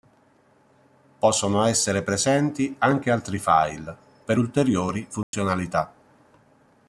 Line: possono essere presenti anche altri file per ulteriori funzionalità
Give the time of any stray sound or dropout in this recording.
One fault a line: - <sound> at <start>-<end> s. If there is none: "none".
- dropout at 5.2-5.3 s